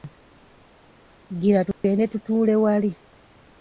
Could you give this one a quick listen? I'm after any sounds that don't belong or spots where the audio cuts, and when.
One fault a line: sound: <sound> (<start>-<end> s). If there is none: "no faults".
sound: dropout (1.7-1.8 s)